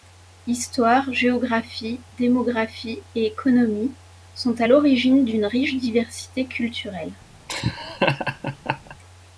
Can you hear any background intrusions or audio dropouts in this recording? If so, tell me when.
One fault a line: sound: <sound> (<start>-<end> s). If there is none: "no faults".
sound: laugh (7.5-9.0 s)